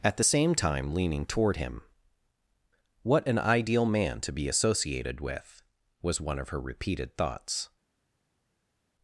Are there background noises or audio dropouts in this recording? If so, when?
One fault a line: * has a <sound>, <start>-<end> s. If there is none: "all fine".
all fine